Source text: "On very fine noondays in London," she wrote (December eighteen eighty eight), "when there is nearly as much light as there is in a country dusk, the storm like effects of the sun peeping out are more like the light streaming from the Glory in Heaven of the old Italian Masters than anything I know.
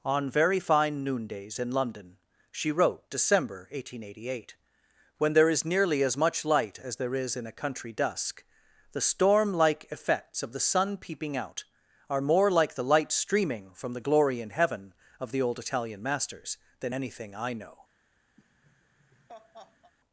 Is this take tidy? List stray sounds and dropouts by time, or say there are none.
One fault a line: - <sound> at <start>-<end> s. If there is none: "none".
- laugh at 18.4-19.9 s